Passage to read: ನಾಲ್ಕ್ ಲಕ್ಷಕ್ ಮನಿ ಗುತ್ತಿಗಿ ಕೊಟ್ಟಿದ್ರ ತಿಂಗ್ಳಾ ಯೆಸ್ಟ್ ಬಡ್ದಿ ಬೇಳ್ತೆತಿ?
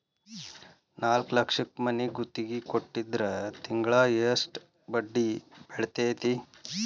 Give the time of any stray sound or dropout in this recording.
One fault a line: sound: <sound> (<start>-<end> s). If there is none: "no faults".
no faults